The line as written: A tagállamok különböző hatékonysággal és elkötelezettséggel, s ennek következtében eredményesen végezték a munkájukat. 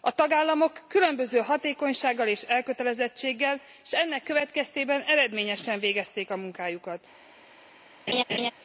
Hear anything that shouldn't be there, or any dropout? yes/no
yes